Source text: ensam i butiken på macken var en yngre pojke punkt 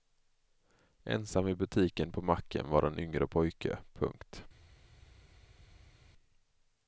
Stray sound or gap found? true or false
false